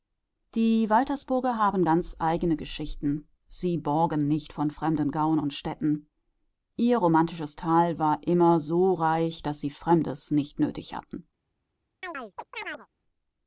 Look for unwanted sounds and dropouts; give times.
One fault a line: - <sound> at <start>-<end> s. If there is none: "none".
- chirp at 12.0-12.9 s